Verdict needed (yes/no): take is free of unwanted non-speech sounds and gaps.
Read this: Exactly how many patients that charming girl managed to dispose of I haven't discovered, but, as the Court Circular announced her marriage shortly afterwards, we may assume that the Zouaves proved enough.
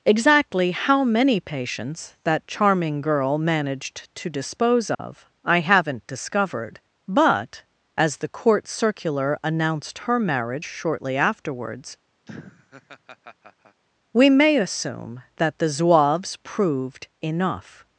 no